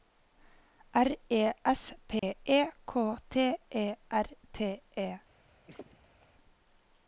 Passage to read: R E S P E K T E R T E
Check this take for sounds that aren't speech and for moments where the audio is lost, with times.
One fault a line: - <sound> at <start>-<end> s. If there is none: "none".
- dropout at 2.2-2.2 s
- laugh at 5.7-6.3 s